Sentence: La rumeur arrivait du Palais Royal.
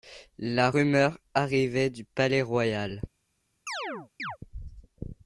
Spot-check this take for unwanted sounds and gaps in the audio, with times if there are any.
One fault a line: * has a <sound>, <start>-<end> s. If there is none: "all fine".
* has a chirp, 3.7-4.4 s